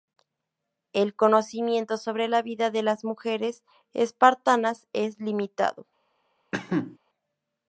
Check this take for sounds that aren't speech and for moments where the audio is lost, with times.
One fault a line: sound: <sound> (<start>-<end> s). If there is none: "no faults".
sound: cough (6.5-7.0 s)